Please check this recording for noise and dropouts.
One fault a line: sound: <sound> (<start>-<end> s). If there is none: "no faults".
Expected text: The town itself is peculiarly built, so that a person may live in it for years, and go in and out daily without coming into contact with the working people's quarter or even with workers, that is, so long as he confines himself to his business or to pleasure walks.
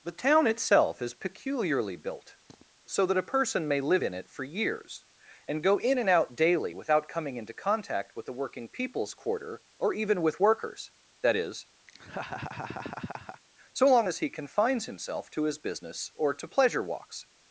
sound: sniff (2.5-2.7 s)
sound: laugh (11.9-13.4 s)